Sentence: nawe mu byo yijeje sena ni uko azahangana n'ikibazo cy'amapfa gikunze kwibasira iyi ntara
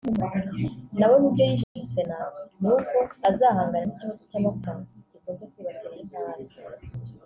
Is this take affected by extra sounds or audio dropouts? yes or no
yes